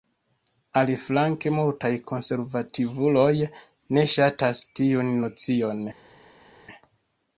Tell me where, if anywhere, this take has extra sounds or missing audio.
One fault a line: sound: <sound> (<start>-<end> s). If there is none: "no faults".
no faults